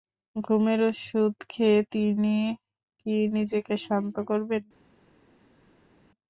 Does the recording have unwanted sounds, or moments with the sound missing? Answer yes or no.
no